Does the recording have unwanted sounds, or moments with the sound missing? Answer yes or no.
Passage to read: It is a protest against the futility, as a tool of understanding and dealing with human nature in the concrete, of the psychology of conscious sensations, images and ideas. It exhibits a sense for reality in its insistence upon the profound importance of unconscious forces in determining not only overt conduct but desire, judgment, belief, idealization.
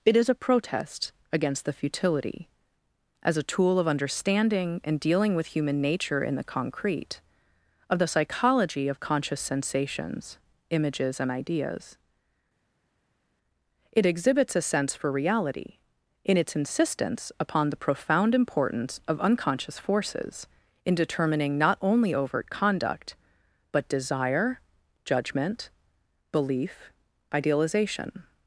no